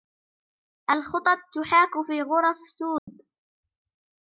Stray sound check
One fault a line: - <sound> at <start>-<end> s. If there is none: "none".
- dropout at 3.0-3.1 s